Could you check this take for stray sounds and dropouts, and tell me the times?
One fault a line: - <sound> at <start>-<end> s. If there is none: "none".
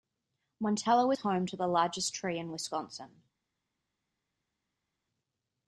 none